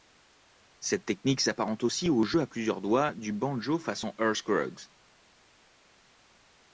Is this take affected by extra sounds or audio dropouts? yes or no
no